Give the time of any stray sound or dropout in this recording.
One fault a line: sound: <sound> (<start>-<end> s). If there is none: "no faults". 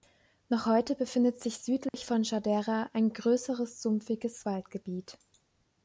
sound: dropout (1.9-1.9 s)